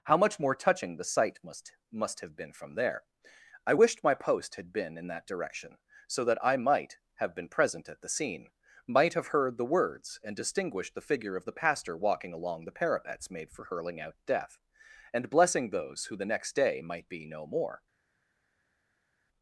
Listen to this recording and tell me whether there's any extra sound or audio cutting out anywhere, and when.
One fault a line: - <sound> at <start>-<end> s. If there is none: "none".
none